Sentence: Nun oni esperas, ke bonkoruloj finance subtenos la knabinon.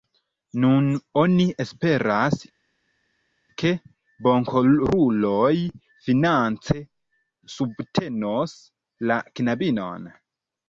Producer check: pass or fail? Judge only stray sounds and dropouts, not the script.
pass